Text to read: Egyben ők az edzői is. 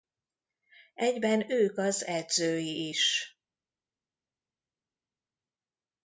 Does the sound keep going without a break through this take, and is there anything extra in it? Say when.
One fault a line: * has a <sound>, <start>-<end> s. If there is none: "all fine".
all fine